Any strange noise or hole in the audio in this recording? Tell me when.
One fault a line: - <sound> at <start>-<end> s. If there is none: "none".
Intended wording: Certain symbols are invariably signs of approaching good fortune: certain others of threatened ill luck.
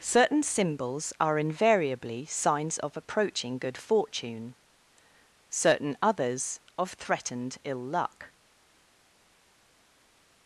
none